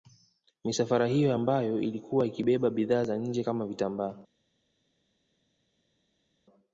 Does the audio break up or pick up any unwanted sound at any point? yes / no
no